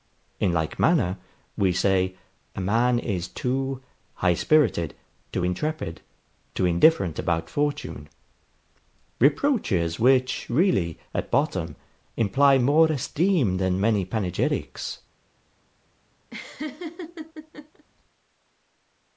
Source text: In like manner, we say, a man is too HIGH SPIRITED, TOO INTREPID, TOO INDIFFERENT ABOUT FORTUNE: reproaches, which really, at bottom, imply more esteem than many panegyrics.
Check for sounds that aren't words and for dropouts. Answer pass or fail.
fail